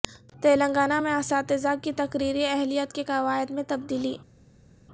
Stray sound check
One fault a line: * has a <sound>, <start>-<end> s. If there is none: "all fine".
all fine